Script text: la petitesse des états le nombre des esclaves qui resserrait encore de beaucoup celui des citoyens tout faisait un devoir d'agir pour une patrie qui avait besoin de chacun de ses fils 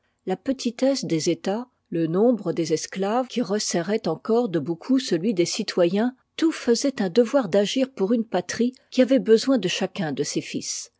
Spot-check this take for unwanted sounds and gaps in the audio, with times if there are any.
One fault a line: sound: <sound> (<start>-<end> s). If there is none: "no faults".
no faults